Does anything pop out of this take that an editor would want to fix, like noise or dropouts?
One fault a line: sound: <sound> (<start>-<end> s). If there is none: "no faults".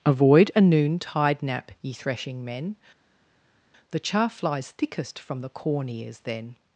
no faults